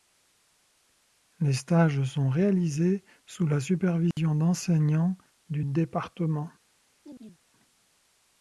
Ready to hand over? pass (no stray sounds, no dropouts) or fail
fail